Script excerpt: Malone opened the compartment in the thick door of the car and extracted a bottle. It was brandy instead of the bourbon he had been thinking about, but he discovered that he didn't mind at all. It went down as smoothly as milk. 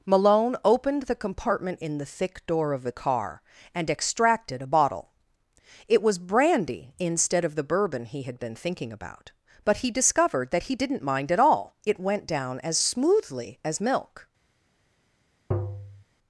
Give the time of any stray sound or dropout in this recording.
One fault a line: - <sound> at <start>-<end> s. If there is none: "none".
- tap at 15.5-16.0 s